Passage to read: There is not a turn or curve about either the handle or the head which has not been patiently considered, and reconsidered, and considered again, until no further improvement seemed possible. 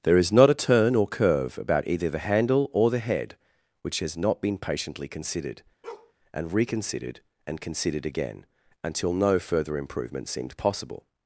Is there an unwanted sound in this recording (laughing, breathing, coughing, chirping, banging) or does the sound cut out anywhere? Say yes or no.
yes